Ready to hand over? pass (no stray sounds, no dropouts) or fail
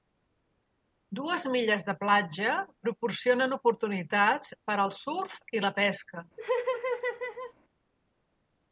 fail